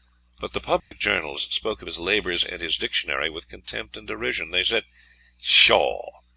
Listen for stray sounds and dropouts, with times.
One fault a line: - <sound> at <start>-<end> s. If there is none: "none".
- dropout at 0.8-0.9 s